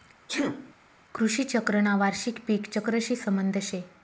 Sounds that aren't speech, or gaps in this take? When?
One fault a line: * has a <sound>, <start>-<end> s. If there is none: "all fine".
* has a sneeze, 0.3-0.7 s